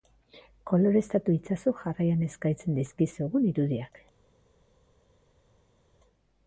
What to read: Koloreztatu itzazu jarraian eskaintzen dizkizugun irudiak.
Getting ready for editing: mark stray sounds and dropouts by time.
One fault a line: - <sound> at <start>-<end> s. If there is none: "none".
none